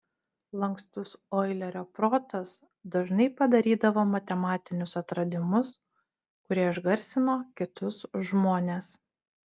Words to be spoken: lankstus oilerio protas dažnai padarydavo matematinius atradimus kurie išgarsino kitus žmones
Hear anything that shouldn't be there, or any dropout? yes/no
no